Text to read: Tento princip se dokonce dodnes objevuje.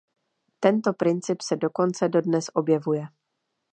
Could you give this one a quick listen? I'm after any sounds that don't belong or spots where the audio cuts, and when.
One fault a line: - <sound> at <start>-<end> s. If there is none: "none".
none